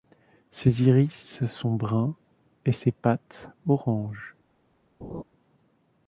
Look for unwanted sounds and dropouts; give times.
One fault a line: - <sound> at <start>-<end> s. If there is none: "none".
- laugh at 5.0-5.2 s